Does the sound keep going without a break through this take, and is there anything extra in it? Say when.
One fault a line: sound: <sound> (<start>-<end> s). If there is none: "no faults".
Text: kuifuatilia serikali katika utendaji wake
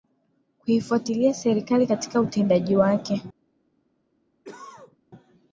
sound: cough (4.4-5.0 s)